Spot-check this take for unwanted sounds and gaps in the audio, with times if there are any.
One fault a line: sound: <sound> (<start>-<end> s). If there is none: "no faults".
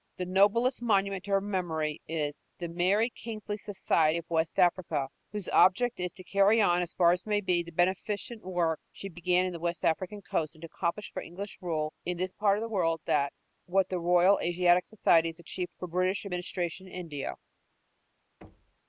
sound: thud (18.4-18.8 s)